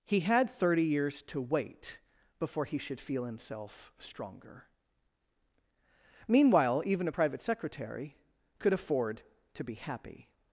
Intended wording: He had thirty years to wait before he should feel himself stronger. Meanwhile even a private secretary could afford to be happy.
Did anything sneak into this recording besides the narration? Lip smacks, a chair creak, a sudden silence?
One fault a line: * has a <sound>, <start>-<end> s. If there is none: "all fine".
all fine